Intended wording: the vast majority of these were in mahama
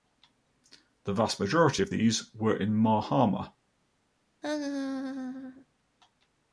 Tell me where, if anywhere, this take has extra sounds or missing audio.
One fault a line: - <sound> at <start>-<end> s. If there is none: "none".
- laugh at 4.4-5.7 s